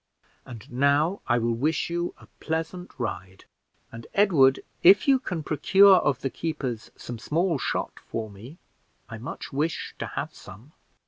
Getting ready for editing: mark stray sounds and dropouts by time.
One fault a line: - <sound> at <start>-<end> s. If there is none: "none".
none